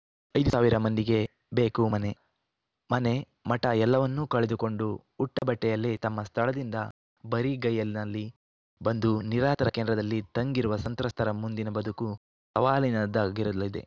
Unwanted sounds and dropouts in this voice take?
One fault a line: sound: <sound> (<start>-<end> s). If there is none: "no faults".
sound: dropout (5.4-5.4 s)